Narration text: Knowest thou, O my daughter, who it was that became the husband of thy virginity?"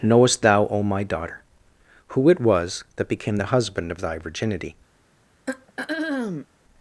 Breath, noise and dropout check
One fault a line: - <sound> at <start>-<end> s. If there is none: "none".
- throat clearing at 5.5-6.5 s